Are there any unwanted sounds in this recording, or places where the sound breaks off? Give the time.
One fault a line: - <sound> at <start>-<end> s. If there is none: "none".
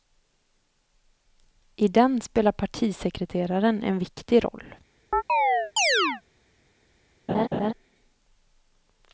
- chirp at 5.1-6.2 s
- laugh at 7.3-7.7 s